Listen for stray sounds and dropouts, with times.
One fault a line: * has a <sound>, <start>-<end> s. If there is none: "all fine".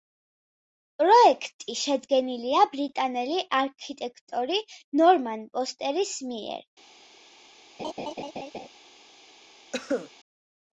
* has a laugh, 7.8-8.7 s
* has a cough, 9.7-10.1 s